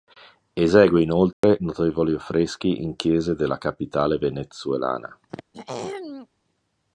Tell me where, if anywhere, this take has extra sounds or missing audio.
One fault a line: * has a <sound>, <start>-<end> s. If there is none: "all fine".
* has a dropout, 1.3-1.4 s
* has a throat clearing, 5.3-6.3 s